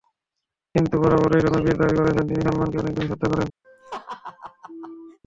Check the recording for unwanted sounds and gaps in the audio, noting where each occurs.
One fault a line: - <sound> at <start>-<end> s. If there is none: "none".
- laugh at 3.6-5.2 s